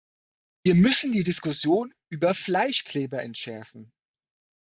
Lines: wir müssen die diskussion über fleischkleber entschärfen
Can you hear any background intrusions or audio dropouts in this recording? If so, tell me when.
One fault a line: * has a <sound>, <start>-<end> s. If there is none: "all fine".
all fine